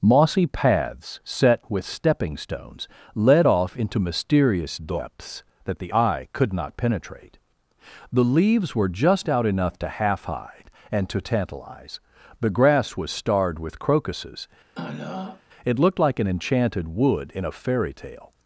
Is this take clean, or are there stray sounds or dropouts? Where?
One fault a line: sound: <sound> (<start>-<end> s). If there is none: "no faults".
sound: throat clearing (14.7-15.4 s)